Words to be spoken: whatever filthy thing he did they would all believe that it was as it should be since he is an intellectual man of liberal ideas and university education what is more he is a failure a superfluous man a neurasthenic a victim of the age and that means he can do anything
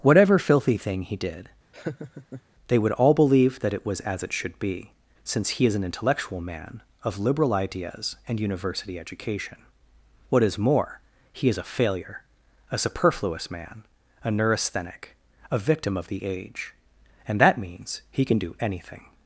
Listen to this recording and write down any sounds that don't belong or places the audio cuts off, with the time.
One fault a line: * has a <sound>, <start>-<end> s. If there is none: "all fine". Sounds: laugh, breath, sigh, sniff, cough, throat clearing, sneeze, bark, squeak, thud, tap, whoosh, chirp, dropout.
* has a laugh, 1.7-2.4 s